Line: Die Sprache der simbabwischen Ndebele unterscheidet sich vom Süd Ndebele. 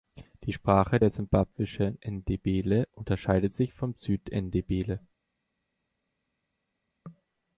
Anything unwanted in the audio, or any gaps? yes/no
no